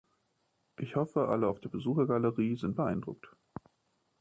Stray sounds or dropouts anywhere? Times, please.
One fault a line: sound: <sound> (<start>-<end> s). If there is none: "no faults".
no faults